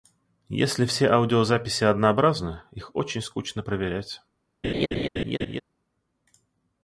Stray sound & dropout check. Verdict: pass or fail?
fail